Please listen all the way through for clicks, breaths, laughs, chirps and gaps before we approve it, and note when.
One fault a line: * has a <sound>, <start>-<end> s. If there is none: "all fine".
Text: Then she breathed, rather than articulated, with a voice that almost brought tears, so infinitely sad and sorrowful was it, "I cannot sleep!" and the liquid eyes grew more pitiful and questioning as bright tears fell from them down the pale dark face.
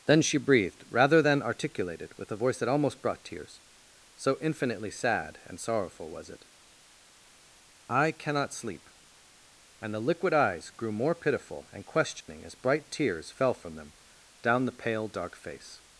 * has a dropout, 12.2-12.3 s